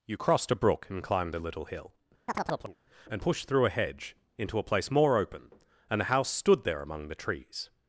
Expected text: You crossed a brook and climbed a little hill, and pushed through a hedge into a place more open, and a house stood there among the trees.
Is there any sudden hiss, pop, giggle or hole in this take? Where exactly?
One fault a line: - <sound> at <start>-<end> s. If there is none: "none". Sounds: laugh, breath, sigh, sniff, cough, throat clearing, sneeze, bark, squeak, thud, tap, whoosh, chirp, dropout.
- chirp at 2.3-2.8 s